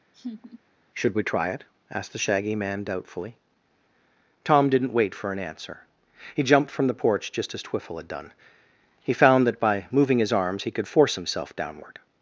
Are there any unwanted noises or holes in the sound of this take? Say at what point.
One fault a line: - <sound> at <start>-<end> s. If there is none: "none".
- laugh at 0.1-0.6 s